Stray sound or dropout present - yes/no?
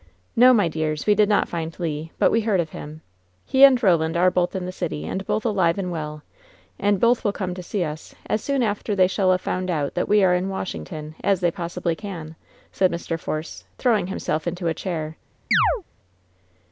yes